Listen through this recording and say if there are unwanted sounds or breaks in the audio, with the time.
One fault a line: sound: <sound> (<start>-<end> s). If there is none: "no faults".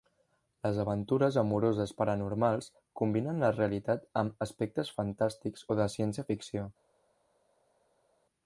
no faults